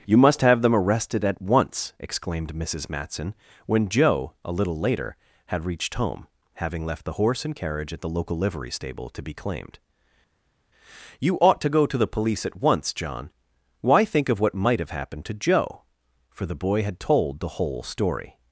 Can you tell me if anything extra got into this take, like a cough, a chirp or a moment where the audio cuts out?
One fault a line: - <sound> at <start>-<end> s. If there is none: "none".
none